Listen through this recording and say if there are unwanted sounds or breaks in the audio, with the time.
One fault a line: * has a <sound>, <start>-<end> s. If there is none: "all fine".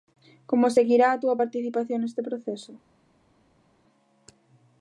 all fine